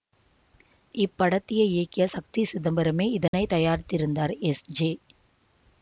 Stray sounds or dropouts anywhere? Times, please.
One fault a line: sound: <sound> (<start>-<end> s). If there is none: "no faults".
sound: dropout (3.3-3.3 s)